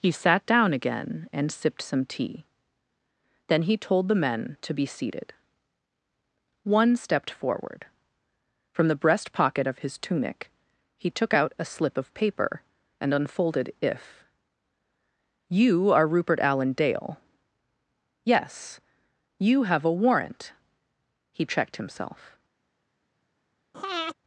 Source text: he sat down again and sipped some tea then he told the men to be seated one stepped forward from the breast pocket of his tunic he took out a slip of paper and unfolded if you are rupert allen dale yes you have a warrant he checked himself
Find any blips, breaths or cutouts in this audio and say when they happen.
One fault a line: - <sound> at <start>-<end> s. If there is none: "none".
- breath at 23.7-24.1 s